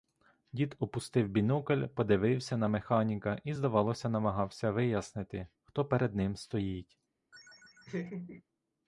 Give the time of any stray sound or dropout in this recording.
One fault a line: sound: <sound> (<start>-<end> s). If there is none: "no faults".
sound: laugh (7.3-8.4 s)